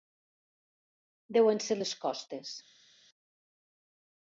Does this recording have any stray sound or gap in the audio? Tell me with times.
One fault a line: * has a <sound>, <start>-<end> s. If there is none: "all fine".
all fine